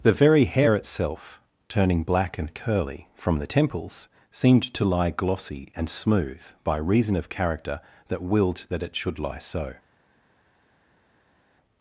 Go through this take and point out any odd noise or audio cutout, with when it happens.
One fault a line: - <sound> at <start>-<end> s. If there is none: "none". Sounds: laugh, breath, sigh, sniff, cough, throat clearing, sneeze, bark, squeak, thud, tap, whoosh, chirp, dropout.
none